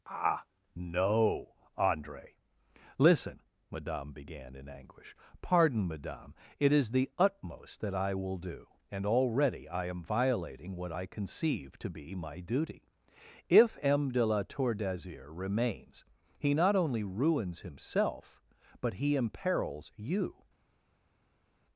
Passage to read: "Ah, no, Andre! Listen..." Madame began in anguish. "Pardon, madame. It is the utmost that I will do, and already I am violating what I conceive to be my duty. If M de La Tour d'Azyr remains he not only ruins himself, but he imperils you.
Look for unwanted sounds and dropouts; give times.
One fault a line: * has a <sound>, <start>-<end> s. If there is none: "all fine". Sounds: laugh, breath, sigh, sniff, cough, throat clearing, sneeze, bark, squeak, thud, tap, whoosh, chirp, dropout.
all fine